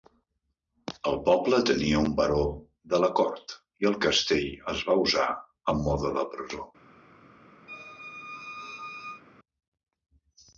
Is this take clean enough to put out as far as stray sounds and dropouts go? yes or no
no